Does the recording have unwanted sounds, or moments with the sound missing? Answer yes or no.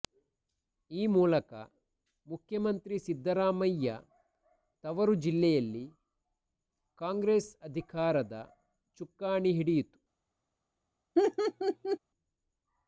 yes